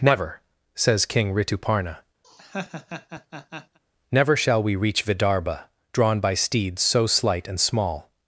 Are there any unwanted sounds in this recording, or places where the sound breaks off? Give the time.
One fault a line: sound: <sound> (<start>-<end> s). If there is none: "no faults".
sound: laugh (2.2-3.8 s)